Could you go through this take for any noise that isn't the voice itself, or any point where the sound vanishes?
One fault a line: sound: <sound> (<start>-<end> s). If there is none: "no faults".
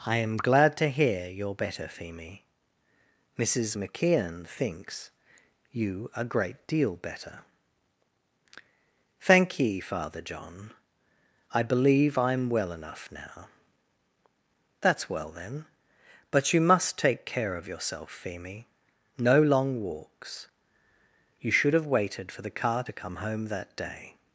no faults